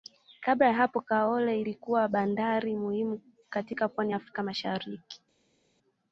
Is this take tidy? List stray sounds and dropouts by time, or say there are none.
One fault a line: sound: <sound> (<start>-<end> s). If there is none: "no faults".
no faults